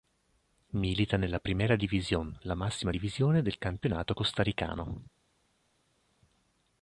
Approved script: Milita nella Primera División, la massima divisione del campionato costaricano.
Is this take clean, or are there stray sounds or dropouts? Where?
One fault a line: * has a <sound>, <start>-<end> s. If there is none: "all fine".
all fine